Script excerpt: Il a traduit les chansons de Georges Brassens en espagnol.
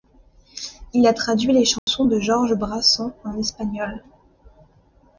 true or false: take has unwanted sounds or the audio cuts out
true